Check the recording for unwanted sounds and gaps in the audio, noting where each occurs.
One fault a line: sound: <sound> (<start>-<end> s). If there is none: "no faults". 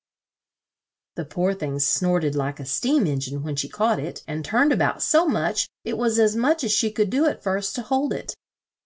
no faults